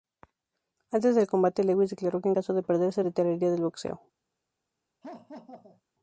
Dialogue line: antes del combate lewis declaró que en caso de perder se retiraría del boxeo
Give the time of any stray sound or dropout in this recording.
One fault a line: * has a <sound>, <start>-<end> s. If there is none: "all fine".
* has a laugh, 5.0-5.8 s